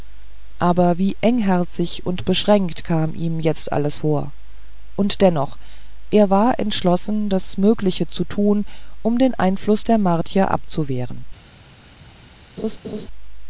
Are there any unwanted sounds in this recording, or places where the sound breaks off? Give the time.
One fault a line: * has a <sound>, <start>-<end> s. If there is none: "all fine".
* has a laugh, 12.6-13.1 s